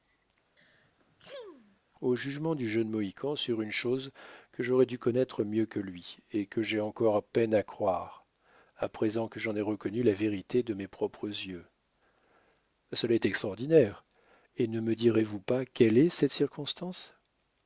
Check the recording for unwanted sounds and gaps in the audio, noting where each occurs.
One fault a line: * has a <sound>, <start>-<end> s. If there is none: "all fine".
* has a sneeze, 0.6-1.8 s